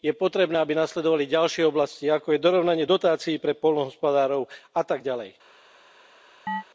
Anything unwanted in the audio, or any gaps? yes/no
yes